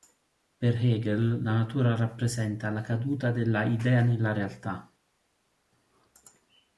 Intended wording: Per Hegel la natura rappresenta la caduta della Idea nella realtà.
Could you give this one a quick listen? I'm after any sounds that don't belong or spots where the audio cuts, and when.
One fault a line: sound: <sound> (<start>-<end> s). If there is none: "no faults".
no faults